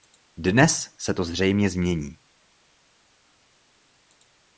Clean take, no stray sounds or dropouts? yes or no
yes